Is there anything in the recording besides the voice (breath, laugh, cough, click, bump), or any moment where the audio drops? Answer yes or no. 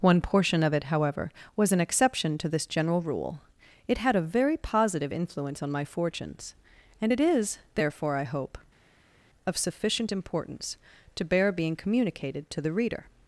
no